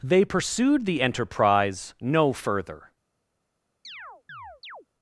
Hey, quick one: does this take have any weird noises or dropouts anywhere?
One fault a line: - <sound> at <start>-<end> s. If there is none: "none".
- chirp at 3.8-4.9 s